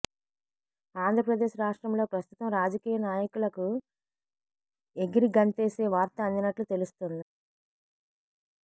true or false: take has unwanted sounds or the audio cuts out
false